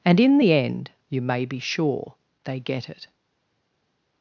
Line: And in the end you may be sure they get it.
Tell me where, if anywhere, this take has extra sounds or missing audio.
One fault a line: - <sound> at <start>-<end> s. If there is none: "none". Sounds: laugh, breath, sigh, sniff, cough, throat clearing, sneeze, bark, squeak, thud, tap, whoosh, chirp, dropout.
none